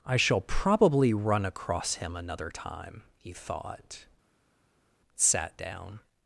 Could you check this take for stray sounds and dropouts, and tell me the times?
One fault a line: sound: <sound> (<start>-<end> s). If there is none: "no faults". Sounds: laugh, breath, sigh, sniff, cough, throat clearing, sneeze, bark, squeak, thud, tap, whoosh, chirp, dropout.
no faults